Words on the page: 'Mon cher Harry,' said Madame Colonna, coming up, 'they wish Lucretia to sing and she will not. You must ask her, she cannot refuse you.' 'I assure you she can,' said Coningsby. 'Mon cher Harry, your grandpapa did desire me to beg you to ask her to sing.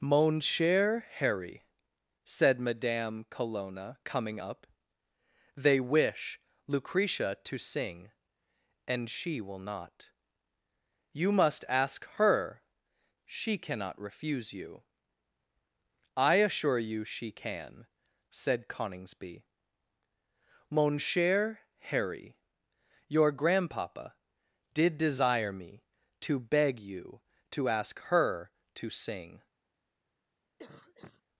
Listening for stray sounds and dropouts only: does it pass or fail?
fail